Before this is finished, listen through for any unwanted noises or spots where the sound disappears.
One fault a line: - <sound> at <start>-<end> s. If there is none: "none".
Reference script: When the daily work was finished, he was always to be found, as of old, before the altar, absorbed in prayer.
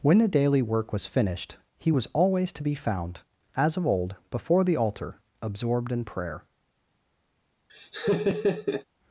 - laugh at 7.7-8.8 s